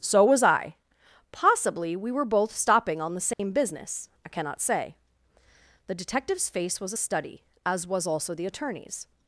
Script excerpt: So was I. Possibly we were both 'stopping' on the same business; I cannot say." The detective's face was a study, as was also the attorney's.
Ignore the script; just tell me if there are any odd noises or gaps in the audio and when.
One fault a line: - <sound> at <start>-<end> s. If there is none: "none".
- dropout at 3.3-3.4 s